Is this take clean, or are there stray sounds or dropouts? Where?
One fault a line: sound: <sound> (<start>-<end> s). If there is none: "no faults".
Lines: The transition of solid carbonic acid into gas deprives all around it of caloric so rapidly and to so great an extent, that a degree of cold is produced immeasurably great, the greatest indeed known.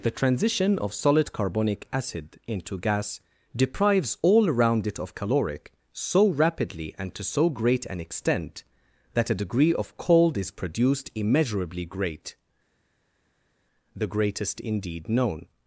no faults